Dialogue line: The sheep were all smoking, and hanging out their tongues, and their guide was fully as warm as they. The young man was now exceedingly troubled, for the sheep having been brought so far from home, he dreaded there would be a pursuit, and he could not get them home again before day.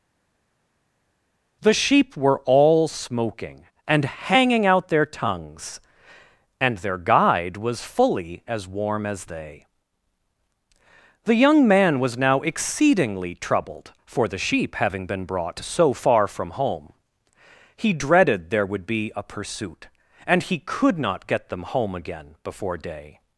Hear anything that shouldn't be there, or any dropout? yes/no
no